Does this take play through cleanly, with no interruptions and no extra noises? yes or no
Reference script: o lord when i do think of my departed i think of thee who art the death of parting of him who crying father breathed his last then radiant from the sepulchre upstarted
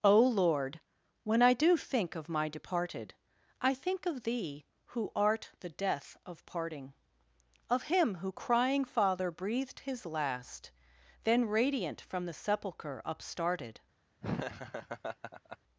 no